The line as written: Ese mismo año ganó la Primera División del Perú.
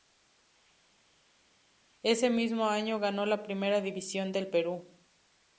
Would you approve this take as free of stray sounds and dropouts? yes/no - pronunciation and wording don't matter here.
yes